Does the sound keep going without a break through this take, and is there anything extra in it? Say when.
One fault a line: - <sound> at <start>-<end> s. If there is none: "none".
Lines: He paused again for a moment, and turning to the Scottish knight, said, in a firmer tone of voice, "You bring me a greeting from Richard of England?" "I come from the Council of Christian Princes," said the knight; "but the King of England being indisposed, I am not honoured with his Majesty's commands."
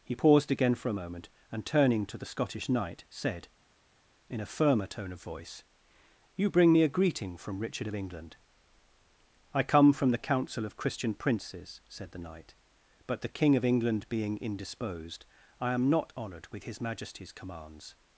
none